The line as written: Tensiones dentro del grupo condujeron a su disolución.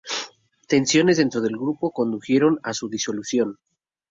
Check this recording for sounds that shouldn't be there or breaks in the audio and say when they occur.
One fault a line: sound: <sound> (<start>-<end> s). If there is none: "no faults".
no faults